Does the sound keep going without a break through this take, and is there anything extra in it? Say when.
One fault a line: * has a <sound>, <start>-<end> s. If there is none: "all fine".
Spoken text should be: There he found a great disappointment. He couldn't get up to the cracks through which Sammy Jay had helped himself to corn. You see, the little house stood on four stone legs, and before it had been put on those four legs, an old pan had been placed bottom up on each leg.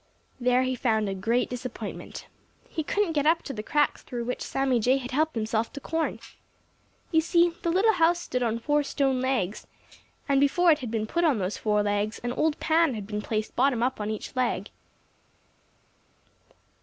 all fine